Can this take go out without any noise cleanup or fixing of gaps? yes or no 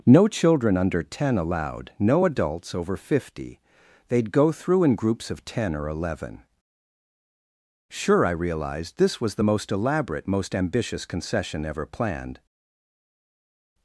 yes